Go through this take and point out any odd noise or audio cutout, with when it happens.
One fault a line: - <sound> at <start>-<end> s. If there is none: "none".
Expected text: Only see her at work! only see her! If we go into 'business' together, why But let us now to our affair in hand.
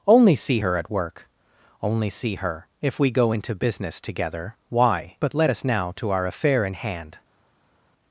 none